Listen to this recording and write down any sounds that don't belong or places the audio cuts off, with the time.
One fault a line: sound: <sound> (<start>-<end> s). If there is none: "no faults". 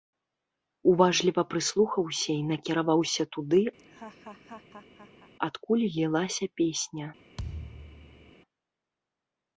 sound: laugh (3.8-5.3 s)
sound: thud (7.4-8.3 s)